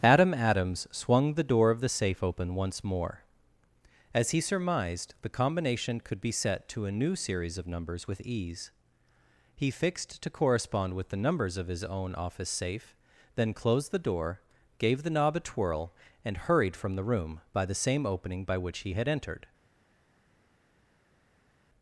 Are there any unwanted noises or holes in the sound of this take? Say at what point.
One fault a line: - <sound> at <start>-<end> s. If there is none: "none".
none